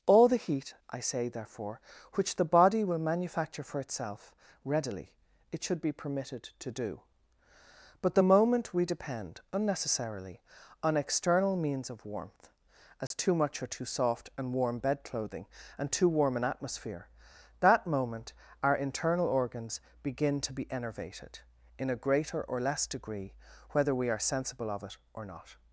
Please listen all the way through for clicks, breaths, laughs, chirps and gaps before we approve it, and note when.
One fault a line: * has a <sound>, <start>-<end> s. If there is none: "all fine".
* has a dropout, 13.1-13.1 s